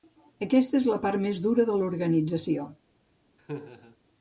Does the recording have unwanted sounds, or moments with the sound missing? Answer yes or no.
yes